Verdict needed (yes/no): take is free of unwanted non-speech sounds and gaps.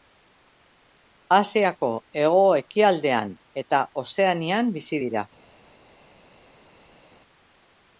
yes